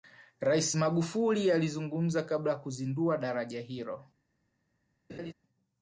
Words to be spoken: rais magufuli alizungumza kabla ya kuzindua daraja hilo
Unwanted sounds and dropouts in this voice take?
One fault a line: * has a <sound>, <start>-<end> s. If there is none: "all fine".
* has a laugh, 5.1-5.3 s